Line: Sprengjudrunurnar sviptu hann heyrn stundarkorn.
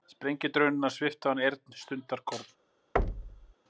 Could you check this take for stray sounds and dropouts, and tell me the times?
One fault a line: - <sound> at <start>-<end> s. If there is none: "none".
- thud at 3.0-3.5 s